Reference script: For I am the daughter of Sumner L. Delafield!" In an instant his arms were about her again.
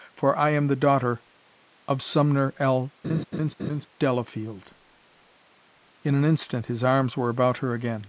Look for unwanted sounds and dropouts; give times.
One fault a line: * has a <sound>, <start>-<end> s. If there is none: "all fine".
* has a laugh, 3.0-3.9 s